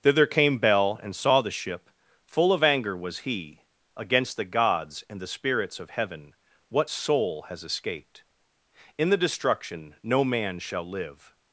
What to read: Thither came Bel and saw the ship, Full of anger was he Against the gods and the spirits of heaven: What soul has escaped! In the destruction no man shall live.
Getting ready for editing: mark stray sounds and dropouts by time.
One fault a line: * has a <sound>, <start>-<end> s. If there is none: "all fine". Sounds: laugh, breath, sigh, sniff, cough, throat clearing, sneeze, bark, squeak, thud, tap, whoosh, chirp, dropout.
all fine